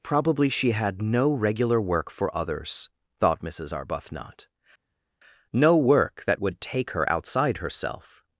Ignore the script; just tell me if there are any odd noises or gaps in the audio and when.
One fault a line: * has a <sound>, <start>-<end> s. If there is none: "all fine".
all fine